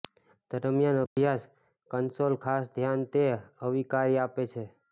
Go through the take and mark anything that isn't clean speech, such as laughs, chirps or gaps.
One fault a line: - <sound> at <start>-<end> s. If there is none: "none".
- dropout at 1.1-1.2 s